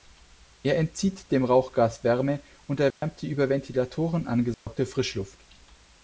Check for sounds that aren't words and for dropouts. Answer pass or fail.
fail